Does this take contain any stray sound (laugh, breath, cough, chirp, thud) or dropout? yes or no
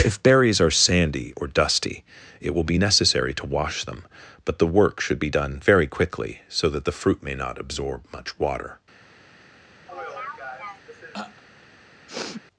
yes